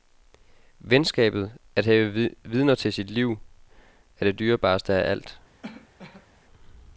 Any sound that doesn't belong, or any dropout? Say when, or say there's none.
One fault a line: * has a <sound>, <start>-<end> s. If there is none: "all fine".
* has a cough, 5.6-6.3 s